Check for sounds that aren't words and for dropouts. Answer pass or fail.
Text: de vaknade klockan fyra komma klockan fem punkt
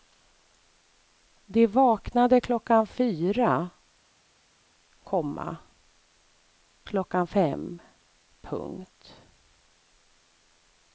pass